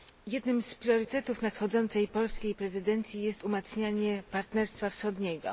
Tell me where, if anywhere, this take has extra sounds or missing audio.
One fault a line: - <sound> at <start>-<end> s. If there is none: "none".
none